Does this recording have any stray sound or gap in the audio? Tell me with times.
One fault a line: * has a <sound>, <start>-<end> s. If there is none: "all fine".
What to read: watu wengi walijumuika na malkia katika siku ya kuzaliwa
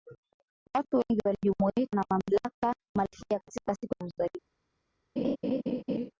* has a laugh, 5.2-6.1 s